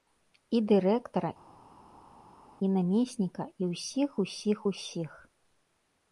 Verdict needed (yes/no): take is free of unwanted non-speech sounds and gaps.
yes